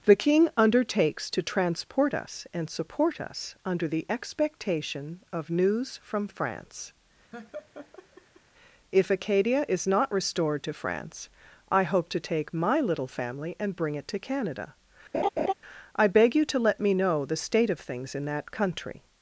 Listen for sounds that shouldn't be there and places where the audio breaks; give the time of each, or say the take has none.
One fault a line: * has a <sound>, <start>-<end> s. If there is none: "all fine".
* has a laugh, 7.3-8.4 s
* has a laugh, 15.1-15.5 s